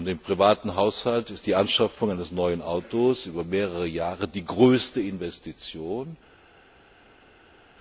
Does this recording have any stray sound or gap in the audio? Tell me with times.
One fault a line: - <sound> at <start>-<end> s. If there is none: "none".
none